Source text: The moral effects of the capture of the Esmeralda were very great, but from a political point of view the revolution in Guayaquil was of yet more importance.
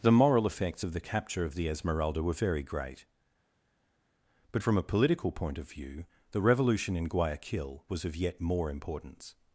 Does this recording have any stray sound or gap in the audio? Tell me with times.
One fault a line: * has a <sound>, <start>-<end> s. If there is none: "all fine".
all fine